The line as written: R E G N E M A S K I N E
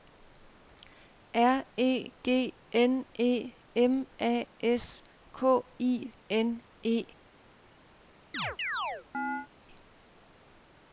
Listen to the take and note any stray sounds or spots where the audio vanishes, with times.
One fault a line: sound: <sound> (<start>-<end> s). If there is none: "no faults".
sound: chirp (8.3-9.5 s)